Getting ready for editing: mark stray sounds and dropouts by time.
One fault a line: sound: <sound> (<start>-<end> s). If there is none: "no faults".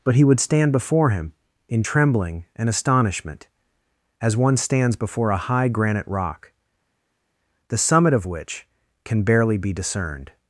no faults